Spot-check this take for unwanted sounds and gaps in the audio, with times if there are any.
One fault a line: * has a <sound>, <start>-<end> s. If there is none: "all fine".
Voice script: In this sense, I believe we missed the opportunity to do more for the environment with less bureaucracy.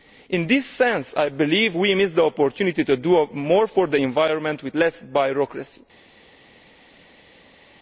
all fine